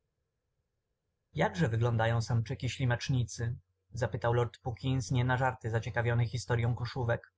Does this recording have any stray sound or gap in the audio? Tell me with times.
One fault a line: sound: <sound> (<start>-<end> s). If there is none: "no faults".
no faults